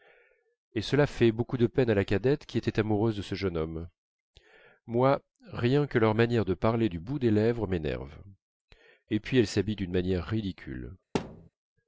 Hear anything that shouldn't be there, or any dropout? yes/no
yes